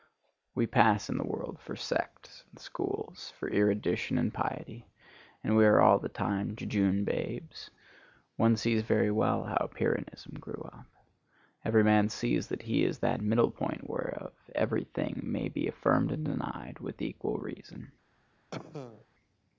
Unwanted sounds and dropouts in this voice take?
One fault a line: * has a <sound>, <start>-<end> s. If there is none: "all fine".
* has a cough, 18.5-19.1 s